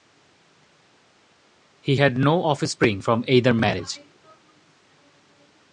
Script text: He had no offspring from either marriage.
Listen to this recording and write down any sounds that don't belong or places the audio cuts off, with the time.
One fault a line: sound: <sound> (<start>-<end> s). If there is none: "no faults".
no faults